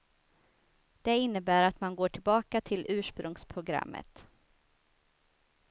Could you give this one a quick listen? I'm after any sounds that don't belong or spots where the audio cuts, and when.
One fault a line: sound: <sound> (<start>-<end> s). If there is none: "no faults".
no faults